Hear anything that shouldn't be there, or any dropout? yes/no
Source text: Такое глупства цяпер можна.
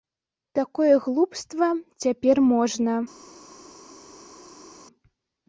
no